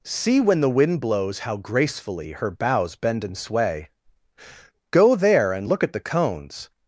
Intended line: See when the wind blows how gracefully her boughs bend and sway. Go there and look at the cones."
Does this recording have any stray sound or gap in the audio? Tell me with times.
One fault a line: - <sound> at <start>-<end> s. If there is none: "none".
none